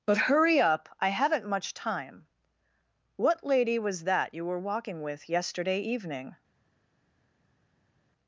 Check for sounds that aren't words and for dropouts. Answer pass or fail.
pass